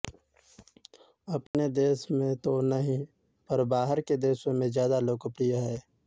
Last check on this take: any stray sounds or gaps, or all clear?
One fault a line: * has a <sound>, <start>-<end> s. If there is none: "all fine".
* has a dropout, 1.5-1.5 s